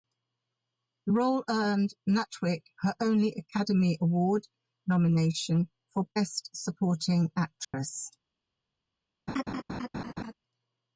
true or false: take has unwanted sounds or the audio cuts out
true